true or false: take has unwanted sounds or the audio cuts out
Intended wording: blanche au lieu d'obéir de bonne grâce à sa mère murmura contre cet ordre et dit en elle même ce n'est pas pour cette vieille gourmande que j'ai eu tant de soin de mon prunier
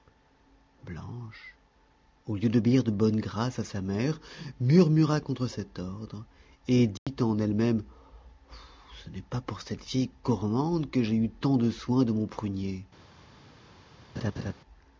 true